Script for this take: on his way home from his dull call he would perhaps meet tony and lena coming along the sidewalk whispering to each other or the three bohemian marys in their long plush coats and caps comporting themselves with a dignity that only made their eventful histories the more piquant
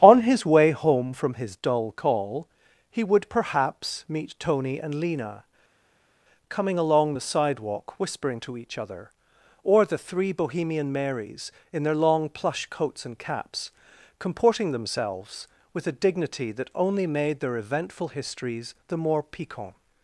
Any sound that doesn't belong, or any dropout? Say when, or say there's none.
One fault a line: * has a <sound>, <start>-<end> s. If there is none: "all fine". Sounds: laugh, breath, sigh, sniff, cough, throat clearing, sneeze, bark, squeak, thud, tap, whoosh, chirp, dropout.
all fine